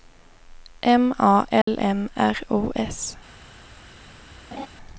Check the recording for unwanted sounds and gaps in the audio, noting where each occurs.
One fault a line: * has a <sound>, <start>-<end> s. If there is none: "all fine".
* has a dropout, 1.6-1.7 s
* has a laugh, 4.5-4.7 s